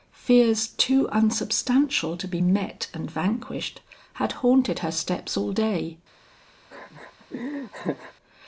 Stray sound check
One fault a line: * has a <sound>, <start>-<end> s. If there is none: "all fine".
* has a laugh, 6.7-8.1 s